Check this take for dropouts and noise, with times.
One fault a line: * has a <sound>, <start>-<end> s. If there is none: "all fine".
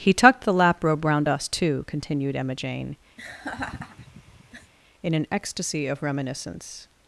* has a laugh, 3.2-4.7 s